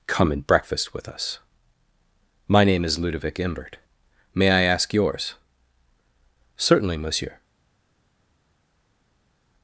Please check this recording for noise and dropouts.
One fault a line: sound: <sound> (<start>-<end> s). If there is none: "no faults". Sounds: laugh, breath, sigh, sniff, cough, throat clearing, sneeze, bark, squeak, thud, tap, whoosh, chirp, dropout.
no faults